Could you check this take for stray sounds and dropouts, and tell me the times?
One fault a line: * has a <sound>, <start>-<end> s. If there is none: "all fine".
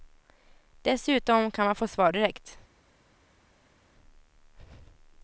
all fine